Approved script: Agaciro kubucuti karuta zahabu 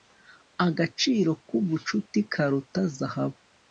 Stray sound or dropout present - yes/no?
no